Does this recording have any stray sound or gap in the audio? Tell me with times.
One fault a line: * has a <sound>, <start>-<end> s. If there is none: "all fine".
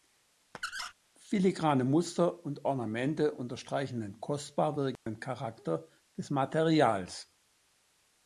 * has a squeak, 0.5-0.9 s
* has a dropout, 5.0-5.1 s